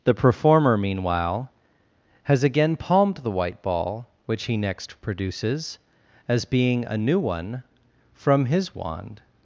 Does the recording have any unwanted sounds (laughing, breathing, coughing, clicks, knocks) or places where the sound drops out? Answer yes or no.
no